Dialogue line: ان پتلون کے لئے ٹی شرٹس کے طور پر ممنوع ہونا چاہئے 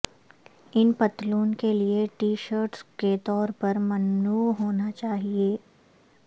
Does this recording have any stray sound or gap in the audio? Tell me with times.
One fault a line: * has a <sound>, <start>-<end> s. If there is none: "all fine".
all fine